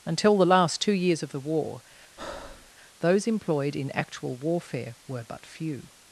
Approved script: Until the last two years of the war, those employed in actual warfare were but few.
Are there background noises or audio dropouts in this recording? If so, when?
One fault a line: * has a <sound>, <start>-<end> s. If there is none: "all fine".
* has a breath, 2.2-2.7 s